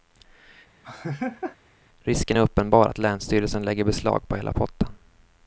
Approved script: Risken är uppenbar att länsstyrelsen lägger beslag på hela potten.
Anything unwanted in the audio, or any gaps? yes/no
yes